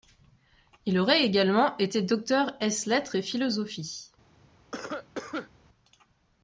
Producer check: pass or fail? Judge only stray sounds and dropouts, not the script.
fail